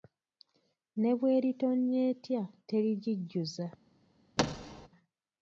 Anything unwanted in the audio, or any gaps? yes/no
yes